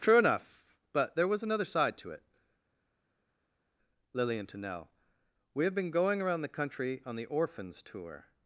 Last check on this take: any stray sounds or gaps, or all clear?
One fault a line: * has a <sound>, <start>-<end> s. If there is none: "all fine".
all fine